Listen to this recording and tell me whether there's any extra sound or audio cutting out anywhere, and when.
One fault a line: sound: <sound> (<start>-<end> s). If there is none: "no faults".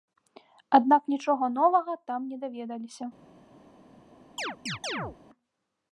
sound: chirp (4.4-5.2 s)